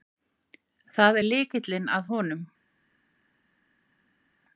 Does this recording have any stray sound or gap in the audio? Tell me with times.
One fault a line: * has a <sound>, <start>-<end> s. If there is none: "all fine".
all fine